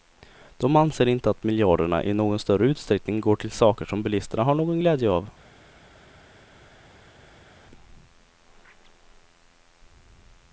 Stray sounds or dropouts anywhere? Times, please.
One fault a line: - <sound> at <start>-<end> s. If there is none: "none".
none